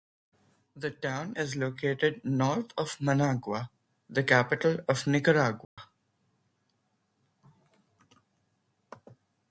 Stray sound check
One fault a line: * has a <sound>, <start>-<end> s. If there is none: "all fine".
* has a dropout, 5.6-5.8 s